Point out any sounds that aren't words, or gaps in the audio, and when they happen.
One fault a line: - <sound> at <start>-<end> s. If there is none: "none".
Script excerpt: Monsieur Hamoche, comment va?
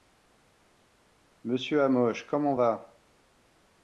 none